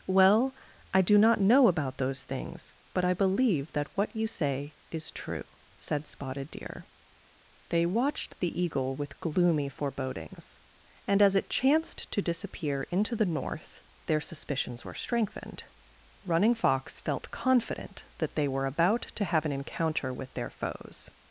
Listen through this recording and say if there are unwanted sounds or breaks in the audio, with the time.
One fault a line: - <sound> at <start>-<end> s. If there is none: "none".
none